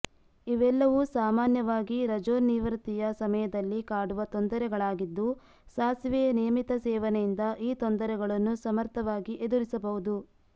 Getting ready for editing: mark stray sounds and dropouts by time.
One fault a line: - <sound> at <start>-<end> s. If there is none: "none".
none